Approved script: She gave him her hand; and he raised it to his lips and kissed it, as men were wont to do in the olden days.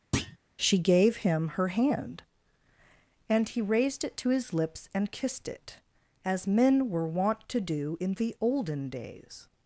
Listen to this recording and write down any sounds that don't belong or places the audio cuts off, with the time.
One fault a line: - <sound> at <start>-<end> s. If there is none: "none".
- thud at 0.1-0.4 s